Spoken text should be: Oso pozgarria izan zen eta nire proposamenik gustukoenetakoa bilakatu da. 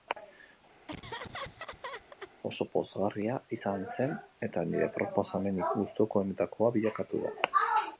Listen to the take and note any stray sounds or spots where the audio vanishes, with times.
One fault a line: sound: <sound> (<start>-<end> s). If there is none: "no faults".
sound: laugh (0.9-2.3 s)